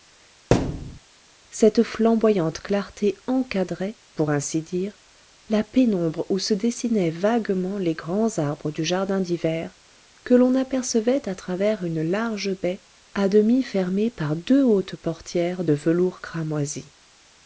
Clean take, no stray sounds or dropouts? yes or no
no